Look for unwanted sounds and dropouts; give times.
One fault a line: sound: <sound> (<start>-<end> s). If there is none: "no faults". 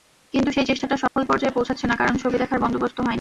sound: dropout (1.1-1.2 s)